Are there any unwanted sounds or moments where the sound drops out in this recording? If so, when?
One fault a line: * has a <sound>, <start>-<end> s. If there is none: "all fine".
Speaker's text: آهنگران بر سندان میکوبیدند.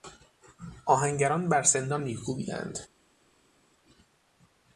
all fine